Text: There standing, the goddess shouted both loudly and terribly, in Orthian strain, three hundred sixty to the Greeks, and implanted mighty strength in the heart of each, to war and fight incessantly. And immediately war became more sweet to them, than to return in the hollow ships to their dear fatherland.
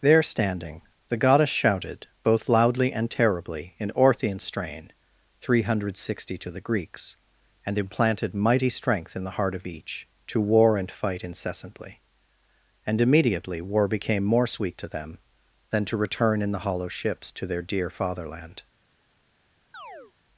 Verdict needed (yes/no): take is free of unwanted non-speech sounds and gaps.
no